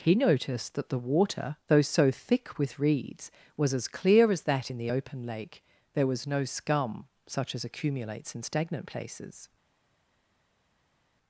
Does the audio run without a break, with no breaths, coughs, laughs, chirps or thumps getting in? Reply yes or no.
yes